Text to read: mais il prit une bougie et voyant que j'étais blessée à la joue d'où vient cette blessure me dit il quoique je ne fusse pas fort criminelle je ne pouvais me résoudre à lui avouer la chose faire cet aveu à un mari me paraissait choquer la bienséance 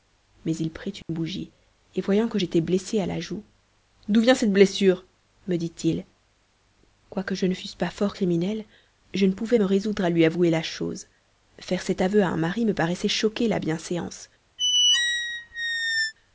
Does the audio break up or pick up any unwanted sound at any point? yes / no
yes